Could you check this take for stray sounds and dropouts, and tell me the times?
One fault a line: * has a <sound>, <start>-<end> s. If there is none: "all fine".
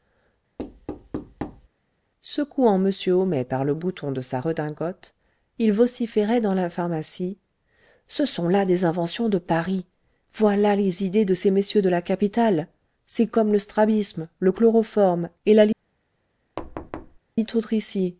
* has a thud, 0.6-1.7 s
* has a thud, 16.6-17.2 s